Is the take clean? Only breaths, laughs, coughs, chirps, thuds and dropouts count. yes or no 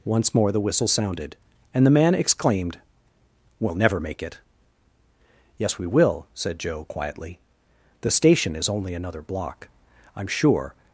yes